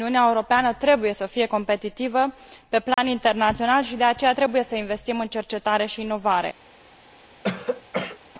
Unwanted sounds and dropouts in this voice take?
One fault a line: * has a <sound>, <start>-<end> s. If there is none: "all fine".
* has a dropout, 2.9-3.0 s
* has a throat clearing, 7.4-8.2 s